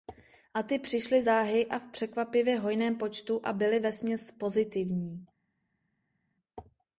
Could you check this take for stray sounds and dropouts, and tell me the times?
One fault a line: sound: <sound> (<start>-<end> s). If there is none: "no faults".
no faults